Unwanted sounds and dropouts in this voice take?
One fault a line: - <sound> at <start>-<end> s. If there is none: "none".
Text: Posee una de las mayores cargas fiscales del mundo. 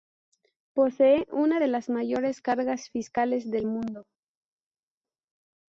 none